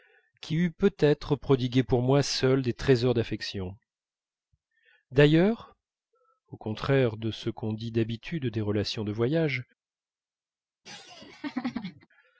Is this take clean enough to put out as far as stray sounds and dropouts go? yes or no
no